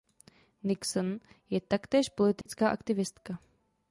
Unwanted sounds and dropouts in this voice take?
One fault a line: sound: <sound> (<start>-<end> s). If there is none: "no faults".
sound: dropout (2.4-2.5 s)